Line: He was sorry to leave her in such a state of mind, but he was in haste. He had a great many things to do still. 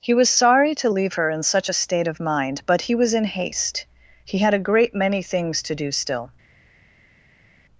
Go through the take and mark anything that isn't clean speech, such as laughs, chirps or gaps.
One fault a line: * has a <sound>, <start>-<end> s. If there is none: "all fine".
all fine